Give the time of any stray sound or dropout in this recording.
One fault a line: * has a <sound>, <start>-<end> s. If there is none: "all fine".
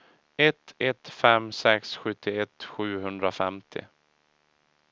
all fine